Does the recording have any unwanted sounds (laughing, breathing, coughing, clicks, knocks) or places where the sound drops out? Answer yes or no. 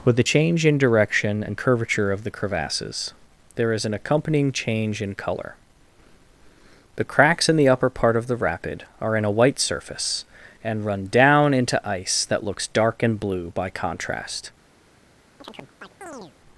yes